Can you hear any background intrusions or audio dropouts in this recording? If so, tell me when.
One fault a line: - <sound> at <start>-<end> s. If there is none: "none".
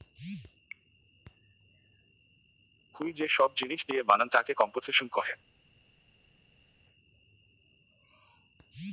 none